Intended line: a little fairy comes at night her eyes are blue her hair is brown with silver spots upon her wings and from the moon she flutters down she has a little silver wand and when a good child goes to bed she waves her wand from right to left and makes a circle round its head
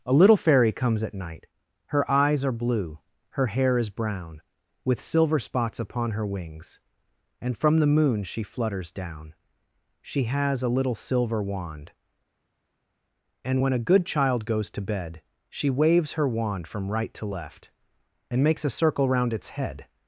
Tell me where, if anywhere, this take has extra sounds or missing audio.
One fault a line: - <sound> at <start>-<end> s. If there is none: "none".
none